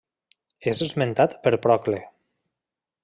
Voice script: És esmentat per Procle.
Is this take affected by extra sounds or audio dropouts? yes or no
no